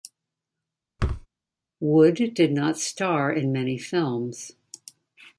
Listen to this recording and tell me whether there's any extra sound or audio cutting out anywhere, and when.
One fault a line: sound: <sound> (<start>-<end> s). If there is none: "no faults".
sound: thud (1.0-1.3 s)